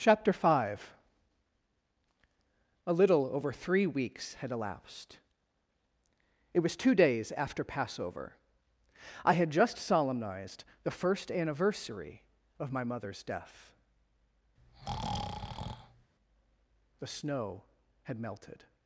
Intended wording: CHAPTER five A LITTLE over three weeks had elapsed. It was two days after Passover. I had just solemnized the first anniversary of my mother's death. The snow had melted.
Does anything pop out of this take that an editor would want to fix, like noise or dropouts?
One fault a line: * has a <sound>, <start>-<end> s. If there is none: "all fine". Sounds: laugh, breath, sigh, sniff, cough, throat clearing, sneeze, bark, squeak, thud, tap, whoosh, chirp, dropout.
* has a breath, 14.6-16.1 s